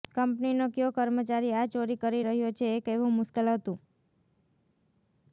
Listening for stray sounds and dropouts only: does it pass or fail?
pass